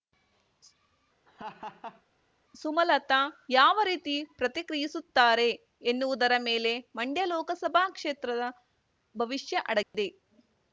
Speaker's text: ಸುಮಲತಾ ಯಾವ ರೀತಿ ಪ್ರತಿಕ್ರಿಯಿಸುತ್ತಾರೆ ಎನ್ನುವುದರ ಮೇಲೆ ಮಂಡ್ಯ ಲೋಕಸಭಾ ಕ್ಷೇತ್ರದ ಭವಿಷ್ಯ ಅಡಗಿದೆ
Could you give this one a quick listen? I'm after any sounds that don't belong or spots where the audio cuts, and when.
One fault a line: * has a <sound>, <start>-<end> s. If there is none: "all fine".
* has a laugh, 1.3-2.0 s
* has a dropout, 9.8-9.9 s